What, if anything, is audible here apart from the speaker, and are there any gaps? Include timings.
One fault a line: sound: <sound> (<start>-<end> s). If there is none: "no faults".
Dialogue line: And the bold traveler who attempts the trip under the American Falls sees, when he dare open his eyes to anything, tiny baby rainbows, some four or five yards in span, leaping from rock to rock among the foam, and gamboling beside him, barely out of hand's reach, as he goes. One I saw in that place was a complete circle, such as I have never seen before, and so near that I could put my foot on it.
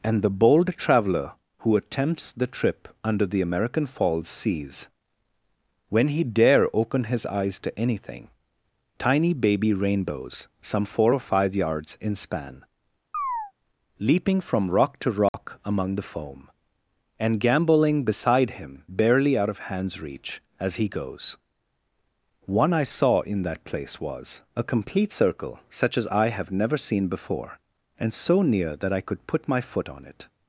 sound: chirp (13.1-13.5 s)
sound: dropout (15.3-15.3 s)